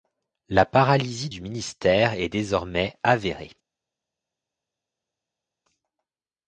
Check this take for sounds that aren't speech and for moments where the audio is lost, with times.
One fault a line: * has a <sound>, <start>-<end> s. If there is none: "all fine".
all fine